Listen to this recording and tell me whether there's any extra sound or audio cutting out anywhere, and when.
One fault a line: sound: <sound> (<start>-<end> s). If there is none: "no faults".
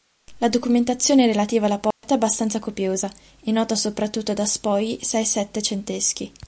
sound: dropout (1.9-2.0 s)